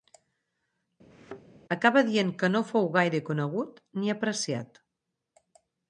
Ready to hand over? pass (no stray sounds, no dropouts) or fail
fail